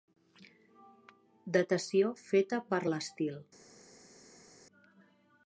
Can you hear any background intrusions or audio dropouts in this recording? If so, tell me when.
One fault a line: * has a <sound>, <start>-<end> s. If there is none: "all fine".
all fine